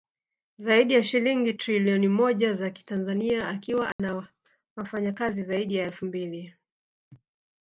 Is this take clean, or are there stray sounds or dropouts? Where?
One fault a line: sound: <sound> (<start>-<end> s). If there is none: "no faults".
sound: dropout (3.9-4.0 s)